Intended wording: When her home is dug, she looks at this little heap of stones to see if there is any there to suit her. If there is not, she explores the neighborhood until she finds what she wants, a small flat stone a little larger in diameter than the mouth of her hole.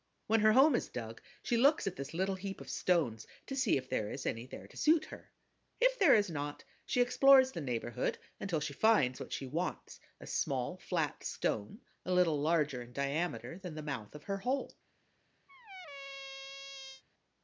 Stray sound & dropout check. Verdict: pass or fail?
fail